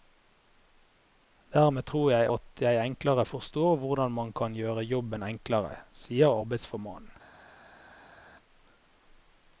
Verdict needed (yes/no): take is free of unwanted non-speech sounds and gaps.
yes